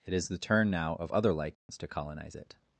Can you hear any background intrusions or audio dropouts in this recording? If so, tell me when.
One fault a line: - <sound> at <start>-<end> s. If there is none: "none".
- dropout at 1.5-1.7 s